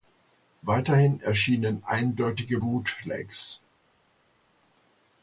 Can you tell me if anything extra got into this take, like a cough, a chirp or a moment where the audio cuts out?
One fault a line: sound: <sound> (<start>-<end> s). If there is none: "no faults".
no faults